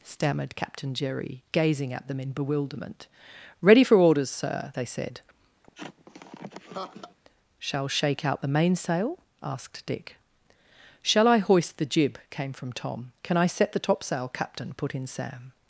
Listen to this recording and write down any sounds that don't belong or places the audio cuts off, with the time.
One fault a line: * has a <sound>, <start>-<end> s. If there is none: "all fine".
* has a laugh, 5.6-7.2 s